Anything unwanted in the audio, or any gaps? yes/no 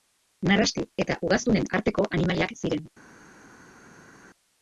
no